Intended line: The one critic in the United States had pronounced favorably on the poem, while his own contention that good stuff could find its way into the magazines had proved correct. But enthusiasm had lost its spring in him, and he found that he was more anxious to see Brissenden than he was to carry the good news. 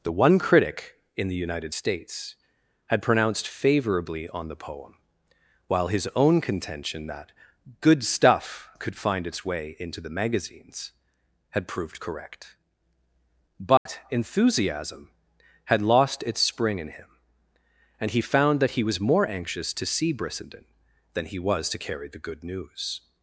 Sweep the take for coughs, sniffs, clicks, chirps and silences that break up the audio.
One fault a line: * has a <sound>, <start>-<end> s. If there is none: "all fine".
* has a dropout, 13.8-13.9 s